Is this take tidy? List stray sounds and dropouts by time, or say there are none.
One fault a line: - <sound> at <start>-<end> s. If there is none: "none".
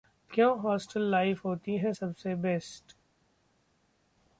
none